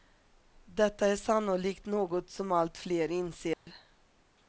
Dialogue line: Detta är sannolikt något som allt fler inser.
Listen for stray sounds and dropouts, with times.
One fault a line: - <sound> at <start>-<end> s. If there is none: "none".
- dropout at 3.5-3.7 s